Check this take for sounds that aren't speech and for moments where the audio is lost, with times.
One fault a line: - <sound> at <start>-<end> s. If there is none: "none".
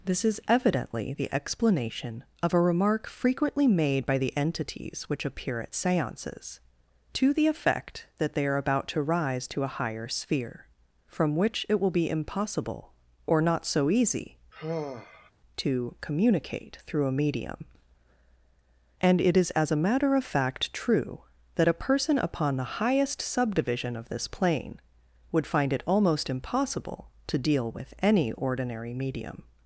- sigh at 14.5-15.3 s